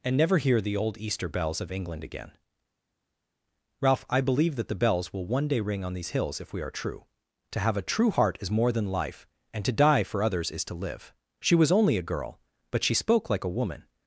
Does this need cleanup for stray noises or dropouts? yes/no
no